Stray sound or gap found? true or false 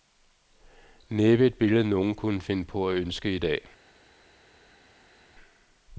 false